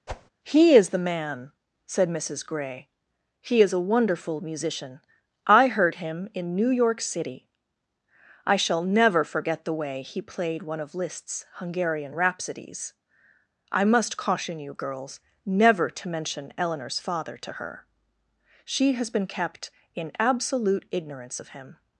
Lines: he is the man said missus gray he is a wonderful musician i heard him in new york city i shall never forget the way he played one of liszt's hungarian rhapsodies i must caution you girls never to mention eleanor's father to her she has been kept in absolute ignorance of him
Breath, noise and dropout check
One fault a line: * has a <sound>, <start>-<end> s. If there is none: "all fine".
* has a whoosh, 0.1-0.3 s